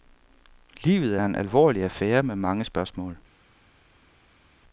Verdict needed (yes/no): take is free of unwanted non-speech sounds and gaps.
yes